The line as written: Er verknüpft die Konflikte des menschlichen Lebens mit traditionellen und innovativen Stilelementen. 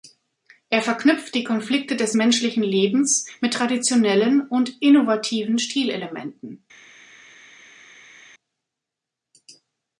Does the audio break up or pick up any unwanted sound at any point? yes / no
no